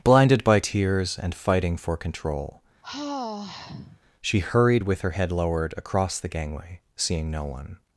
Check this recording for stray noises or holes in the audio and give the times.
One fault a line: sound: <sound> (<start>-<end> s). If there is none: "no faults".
sound: sigh (2.8-4.0 s)